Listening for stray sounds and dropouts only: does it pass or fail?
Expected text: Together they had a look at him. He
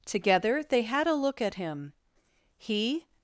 pass